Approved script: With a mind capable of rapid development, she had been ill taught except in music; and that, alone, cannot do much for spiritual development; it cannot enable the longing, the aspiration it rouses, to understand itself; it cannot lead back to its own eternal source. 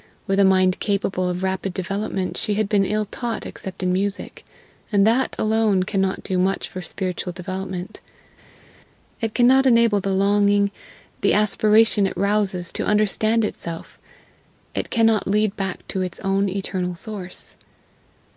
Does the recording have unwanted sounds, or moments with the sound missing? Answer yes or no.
no